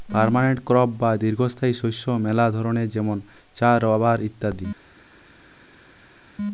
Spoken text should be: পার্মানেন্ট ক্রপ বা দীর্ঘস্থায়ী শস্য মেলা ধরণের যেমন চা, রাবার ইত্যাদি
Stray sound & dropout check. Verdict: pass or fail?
pass